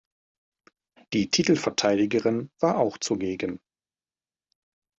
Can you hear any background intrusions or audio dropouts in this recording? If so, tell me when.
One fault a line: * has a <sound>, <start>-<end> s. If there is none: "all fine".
all fine